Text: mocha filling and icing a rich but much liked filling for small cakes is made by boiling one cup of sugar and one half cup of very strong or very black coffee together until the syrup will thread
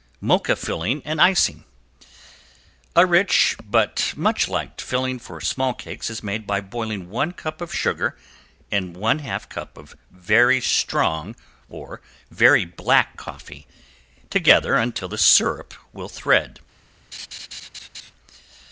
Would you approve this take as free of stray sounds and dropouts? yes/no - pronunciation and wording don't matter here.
no